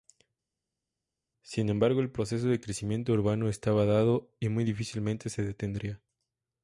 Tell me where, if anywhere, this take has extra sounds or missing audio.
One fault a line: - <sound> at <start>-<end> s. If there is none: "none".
none